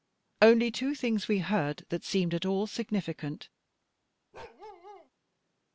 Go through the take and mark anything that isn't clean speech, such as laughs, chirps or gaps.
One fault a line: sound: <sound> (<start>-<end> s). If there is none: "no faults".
sound: bark (4.3-5.1 s)